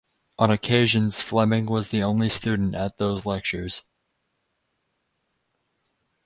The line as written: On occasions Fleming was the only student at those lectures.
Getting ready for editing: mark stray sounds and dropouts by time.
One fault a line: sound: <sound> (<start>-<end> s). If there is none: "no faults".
no faults